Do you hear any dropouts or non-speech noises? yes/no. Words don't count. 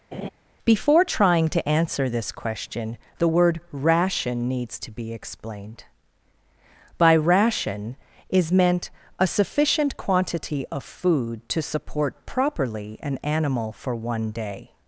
yes